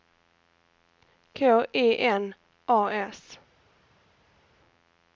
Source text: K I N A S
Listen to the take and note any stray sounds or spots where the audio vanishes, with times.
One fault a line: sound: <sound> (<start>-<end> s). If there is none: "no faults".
no faults